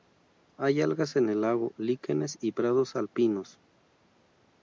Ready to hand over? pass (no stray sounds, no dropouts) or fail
pass